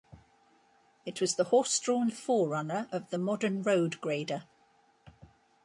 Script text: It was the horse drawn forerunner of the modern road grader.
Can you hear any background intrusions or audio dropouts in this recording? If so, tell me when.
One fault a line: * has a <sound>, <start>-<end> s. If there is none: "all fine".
all fine